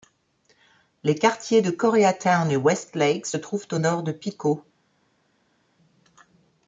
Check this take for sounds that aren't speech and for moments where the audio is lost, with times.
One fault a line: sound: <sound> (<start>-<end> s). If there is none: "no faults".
no faults